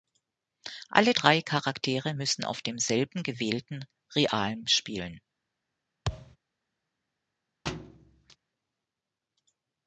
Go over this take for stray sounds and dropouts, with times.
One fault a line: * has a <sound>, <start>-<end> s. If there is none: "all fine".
* has a thud, 6.1-6.4 s
* has a thud, 7.7-8.4 s